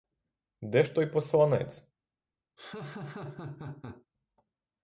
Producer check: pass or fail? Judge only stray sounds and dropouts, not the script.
fail